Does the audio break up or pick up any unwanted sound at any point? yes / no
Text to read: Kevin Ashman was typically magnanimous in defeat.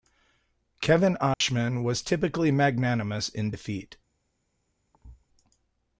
yes